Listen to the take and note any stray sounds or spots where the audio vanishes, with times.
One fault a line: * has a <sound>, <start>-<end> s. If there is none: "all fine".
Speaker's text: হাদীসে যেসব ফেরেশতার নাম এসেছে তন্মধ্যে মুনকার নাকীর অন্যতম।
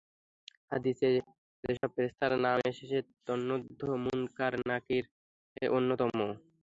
* has a dropout, 1.8-1.8 s